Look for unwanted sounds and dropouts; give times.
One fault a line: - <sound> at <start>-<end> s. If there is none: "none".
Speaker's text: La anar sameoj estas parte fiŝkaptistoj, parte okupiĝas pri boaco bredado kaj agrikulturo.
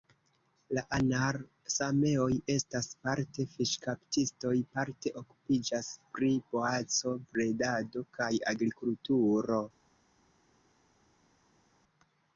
none